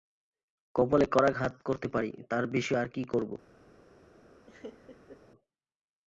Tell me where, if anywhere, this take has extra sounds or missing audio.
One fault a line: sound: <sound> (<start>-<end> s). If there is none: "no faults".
sound: laugh (4.5-5.2 s)